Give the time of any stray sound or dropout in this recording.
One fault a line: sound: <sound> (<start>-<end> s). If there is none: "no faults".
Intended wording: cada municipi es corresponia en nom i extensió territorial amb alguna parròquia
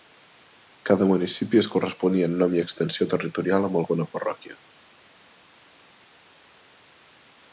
no faults